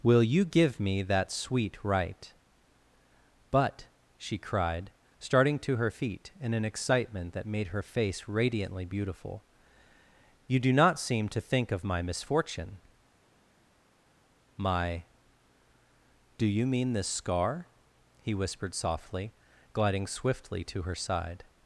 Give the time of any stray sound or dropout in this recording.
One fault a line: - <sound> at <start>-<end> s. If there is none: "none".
none